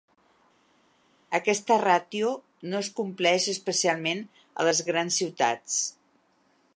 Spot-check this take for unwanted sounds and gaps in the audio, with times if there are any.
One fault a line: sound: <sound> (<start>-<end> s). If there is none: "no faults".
no faults